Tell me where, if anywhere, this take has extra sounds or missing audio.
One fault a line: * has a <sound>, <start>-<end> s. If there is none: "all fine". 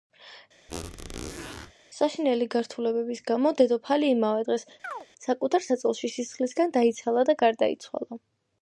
* has a squeak, 0.7-1.7 s
* has a chirp, 4.8-5.1 s